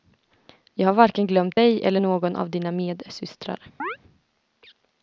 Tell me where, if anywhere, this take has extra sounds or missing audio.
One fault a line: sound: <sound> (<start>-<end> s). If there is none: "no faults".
sound: chirp (3.8-4.0 s)